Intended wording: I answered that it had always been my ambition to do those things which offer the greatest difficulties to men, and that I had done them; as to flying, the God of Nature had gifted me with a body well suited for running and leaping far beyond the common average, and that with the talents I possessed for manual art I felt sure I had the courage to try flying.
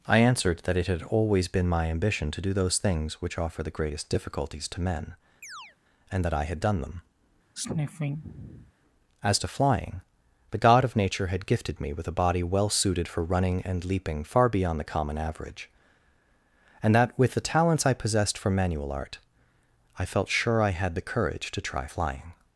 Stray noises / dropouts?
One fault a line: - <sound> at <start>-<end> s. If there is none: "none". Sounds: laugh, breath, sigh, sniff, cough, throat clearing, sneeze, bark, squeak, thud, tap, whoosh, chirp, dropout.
- chirp at 5.4-5.8 s
- sniff at 7.5-8.7 s